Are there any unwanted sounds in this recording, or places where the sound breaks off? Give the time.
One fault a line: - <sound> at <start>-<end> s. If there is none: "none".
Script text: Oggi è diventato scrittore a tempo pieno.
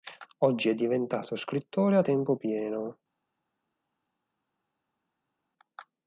none